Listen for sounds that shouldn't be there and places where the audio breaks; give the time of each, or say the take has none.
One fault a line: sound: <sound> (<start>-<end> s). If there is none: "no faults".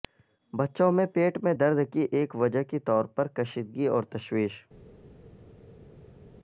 no faults